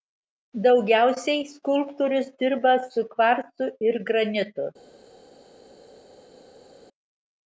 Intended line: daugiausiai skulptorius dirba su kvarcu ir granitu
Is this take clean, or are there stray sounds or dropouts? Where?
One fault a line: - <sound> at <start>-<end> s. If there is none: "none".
none